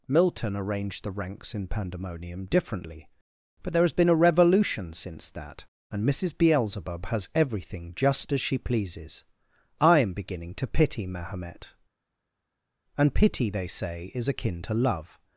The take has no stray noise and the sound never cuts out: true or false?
true